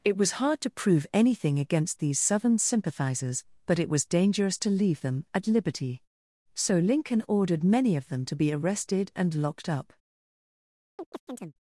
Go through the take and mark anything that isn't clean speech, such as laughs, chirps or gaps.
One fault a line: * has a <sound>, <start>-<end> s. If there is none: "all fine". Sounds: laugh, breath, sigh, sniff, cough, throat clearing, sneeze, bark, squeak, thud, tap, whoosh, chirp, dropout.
* has a chirp, 11.0-11.5 s